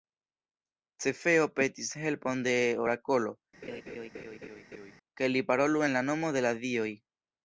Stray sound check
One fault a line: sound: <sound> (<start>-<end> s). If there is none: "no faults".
sound: laugh (3.6-4.9 s)